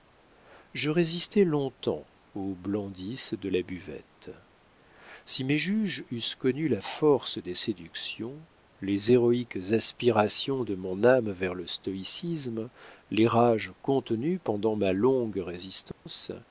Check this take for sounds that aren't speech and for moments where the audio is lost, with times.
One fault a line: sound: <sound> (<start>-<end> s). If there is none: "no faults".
sound: dropout (15.9-16.1 s)